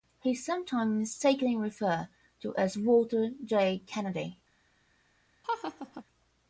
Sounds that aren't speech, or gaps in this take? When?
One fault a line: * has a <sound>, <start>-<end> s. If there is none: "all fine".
* has a laugh, 5.4-6.0 s